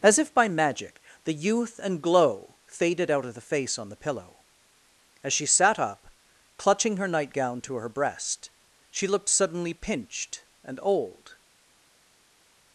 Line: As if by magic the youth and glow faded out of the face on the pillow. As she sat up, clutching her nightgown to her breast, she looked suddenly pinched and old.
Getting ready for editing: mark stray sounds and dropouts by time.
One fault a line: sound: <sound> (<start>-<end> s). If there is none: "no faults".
no faults